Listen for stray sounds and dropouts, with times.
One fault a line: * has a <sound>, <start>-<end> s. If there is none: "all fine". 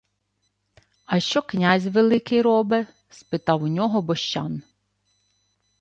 all fine